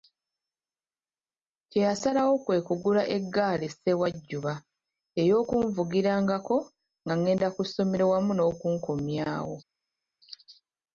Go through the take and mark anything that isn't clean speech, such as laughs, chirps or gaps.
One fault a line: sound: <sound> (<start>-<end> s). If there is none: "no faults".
no faults